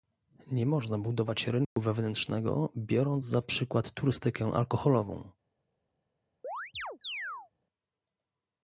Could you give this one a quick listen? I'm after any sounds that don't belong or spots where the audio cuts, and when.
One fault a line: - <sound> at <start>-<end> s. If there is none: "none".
- dropout at 1.6-1.8 s
- chirp at 6.4-7.5 s